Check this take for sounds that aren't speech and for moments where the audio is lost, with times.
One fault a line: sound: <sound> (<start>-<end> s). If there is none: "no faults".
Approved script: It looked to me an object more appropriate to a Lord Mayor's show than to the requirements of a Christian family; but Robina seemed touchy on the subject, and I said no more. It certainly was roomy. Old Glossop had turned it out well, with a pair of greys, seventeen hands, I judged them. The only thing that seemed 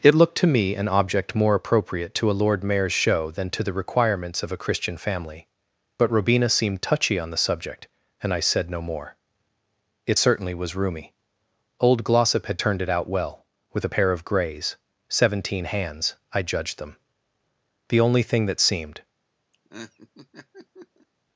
sound: laugh (19.5-21.1 s)